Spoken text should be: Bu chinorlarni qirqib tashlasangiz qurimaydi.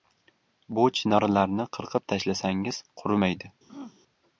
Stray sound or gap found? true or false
true